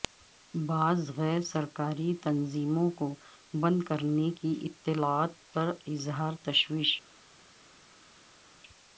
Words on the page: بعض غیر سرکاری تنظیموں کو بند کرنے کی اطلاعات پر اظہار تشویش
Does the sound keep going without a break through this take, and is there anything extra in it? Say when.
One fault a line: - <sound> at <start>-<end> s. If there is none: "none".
none